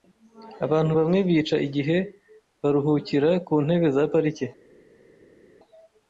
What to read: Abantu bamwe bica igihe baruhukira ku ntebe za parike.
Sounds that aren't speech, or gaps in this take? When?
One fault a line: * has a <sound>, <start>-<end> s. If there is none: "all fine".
all fine